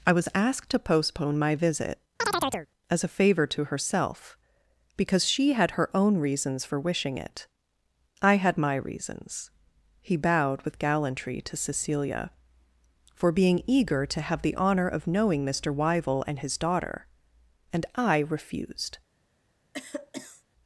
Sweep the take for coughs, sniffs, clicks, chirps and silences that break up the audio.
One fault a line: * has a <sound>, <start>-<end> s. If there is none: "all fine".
* has a chirp, 2.2-2.7 s
* has a cough, 19.7-20.4 s